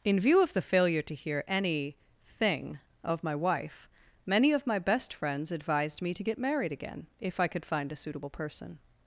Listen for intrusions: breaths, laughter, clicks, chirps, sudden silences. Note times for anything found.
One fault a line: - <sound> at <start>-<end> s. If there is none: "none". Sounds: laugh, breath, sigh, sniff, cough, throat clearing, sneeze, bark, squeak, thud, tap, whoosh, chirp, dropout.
none